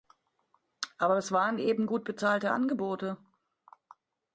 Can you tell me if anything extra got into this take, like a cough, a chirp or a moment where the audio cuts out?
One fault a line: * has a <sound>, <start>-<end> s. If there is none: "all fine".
all fine